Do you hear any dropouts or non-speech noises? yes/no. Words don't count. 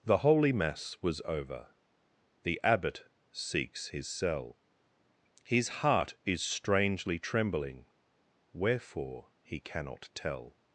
no